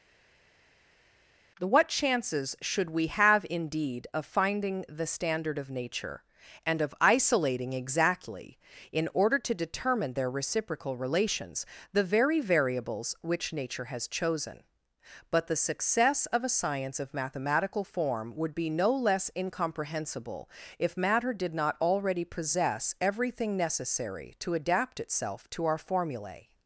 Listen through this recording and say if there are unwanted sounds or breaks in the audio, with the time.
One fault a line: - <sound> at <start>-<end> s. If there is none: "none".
none